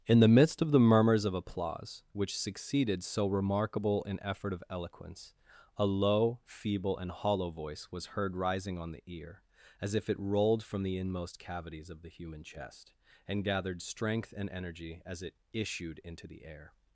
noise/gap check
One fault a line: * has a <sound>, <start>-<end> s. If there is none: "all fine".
all fine